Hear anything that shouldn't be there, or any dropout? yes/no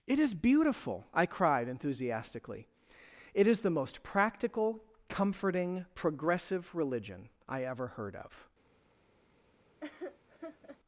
yes